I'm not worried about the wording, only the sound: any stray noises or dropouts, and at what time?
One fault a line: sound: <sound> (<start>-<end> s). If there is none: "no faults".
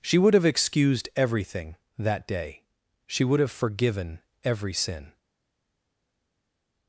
no faults